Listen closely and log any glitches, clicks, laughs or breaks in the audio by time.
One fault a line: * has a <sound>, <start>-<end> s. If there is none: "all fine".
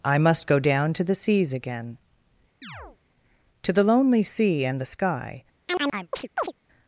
* has a chirp, 2.6-3.0 s
* has a chirp, 5.7-6.5 s